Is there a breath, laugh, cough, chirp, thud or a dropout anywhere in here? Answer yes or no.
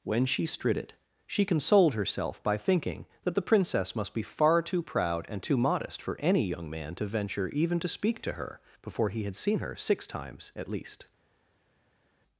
no